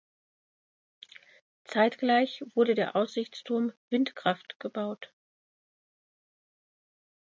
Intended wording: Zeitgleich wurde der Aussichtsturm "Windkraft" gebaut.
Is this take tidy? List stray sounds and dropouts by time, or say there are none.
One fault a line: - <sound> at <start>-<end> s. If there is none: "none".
none